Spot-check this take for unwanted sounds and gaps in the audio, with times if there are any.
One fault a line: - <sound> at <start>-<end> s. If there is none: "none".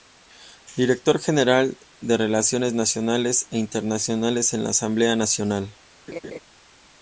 - laugh at 6.1-6.4 s